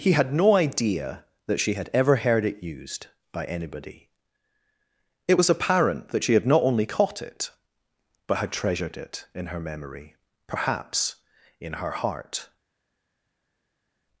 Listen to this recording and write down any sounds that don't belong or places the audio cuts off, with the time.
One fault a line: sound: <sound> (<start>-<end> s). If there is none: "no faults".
no faults